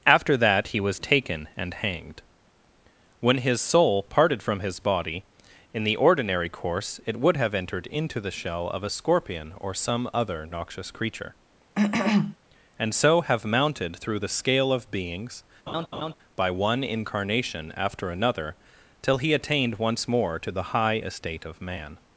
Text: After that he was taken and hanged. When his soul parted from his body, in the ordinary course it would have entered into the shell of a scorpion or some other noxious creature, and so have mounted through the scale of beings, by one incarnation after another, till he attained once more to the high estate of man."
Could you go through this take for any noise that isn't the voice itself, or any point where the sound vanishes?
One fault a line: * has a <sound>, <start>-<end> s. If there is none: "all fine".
* has a cough, 11.7-12.4 s
* has a laugh, 15.7-16.1 s